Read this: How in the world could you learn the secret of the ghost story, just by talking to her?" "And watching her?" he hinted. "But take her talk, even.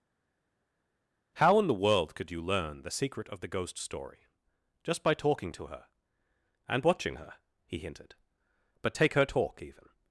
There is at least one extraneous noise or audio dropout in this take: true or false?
false